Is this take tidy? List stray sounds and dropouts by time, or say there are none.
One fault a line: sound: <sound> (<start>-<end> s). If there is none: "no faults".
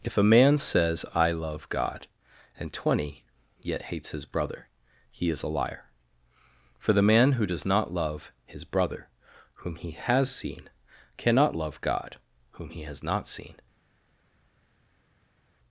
no faults